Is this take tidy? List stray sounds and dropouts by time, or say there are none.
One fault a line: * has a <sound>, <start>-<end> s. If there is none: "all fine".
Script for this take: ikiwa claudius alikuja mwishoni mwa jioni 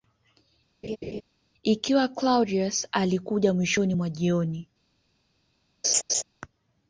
* has a laugh, 0.8-1.2 s
* has a laugh, 5.8-6.2 s